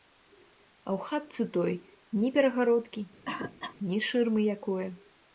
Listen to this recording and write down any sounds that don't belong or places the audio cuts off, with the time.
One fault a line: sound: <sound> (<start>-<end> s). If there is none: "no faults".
sound: cough (3.3-3.8 s)